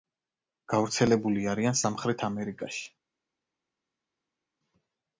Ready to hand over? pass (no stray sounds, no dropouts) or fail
pass